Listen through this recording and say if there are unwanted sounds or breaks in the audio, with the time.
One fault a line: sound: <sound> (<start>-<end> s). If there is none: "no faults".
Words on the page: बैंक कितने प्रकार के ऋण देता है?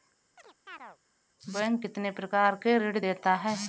sound: chirp (0.4-1.0 s)